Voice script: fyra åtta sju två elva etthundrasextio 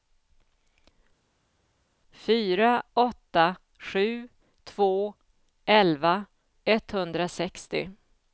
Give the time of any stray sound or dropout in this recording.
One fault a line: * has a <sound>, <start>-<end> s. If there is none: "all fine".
all fine